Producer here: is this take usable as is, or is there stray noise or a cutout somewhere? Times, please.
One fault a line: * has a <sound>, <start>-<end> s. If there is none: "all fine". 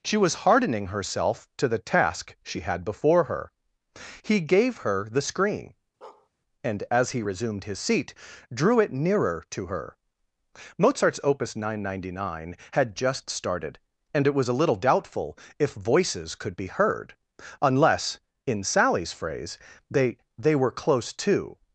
* has a bark, 6.0-6.3 s